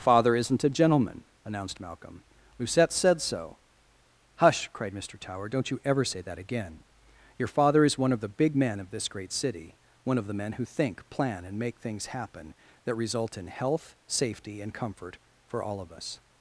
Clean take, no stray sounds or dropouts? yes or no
yes